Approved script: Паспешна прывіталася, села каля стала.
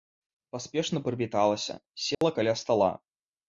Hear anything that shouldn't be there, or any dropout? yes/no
yes